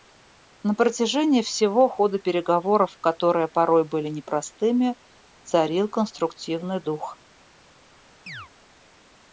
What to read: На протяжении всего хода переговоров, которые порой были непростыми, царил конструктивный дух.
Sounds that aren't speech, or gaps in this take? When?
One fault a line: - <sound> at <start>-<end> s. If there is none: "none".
- chirp at 8.3-8.5 s